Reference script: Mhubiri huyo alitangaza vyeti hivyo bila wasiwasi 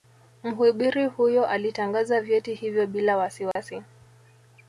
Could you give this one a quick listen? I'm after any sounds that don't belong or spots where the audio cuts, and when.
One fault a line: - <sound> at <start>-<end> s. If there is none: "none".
- dropout at 3.5-3.6 s